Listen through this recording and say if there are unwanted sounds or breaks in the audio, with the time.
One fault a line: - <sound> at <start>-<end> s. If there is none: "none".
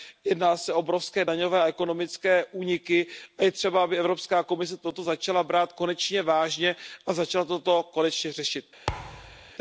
- thud at 8.9-9.5 s